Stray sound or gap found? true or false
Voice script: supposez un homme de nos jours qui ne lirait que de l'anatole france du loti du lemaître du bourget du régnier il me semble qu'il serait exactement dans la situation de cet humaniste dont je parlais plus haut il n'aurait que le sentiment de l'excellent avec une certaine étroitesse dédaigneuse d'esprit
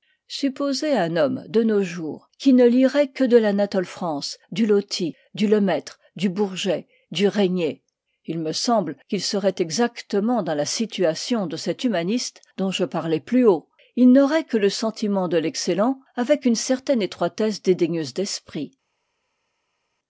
false